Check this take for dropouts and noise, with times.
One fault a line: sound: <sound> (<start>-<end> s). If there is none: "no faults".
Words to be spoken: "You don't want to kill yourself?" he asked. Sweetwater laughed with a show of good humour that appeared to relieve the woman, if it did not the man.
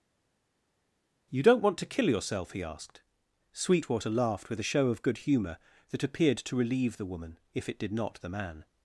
no faults